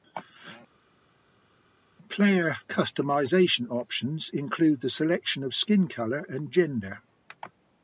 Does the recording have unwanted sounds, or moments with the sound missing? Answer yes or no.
no